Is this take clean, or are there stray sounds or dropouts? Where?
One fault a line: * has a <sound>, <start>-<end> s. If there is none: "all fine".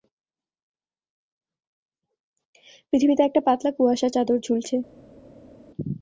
all fine